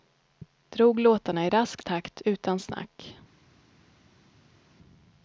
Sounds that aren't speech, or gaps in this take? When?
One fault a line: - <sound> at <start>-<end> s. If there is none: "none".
none